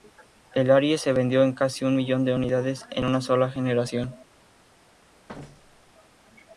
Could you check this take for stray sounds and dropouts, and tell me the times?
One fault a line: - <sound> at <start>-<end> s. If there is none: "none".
- thud at 5.3-5.9 s